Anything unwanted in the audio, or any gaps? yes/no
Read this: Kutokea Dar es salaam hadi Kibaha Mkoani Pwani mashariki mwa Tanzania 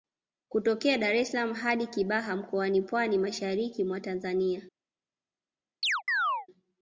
yes